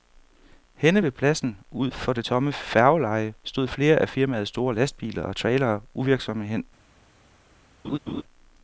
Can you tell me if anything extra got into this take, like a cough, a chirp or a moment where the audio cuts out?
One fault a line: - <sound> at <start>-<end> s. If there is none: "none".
- laugh at 7.8-8.2 s